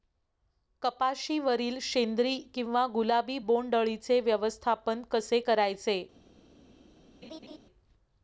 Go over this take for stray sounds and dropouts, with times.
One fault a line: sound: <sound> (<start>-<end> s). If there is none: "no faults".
sound: laugh (7.2-7.6 s)